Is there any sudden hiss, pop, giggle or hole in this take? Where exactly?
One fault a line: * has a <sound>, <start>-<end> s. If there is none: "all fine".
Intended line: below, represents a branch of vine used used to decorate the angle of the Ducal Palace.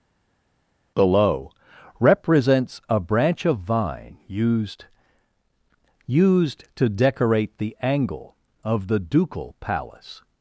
all fine